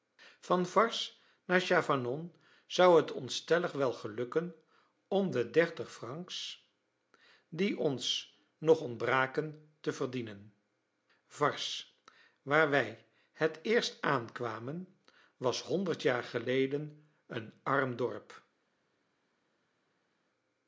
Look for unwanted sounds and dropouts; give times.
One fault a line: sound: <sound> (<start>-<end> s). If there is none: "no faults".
no faults